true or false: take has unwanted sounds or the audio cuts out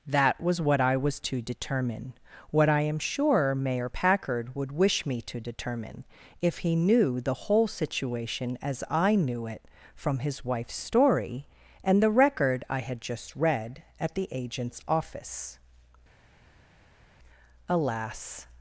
false